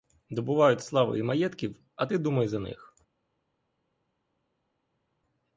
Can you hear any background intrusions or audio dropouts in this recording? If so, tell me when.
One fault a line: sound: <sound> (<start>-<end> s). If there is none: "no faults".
no faults